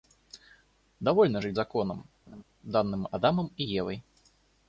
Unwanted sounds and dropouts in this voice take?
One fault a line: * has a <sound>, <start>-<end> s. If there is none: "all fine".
* has a laugh, 2.3-2.4 s